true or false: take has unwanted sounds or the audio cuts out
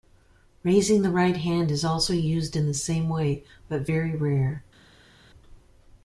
false